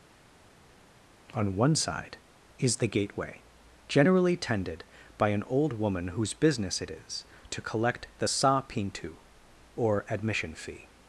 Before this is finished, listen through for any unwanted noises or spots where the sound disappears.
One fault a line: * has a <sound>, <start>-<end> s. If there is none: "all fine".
all fine